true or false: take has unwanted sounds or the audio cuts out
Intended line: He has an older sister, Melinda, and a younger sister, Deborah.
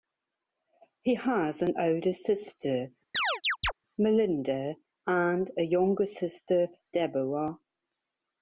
true